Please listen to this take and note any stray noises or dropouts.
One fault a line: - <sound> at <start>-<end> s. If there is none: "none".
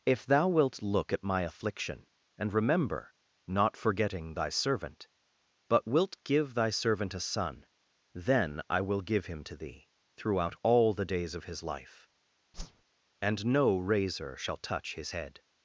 - whoosh at 12.5-12.8 s